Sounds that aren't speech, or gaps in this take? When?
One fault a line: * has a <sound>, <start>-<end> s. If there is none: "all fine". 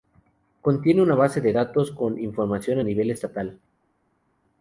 all fine